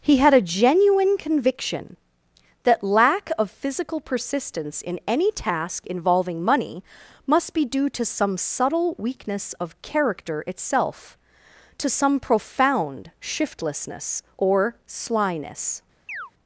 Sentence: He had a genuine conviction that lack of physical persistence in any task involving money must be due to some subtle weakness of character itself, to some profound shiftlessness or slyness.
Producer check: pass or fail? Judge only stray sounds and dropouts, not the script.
fail